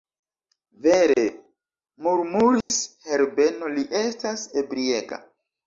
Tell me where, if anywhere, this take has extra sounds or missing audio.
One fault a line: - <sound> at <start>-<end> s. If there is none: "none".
- dropout at 2.6-2.7 s